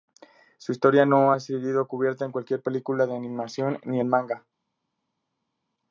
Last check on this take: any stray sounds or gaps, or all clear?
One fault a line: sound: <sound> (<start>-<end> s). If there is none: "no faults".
no faults